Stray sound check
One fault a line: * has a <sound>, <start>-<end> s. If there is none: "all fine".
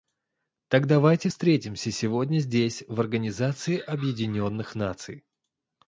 all fine